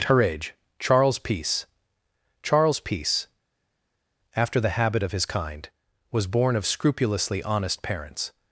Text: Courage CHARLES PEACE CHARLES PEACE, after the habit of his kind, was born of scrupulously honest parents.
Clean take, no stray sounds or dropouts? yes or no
yes